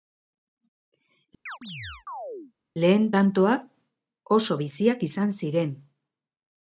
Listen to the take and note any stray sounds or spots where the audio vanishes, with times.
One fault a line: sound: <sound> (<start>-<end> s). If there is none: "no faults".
sound: chirp (1.5-2.5 s)